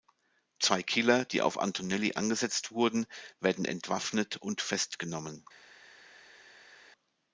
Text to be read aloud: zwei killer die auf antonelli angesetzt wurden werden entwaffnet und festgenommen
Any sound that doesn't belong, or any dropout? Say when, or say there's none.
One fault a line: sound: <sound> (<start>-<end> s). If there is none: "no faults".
no faults